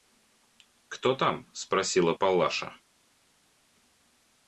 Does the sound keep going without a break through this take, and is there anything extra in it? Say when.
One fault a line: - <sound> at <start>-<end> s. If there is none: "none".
none